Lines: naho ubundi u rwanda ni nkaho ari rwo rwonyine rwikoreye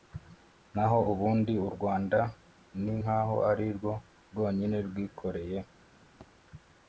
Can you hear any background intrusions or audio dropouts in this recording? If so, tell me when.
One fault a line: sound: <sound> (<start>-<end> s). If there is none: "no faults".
sound: thud (6.2-6.3 s)